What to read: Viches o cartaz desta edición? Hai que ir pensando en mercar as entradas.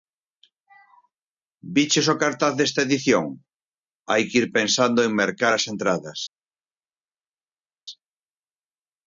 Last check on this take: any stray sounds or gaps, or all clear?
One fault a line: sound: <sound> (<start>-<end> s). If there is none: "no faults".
no faults